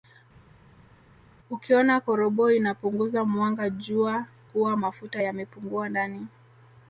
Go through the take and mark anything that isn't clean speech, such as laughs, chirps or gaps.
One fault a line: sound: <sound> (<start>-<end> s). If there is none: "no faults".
no faults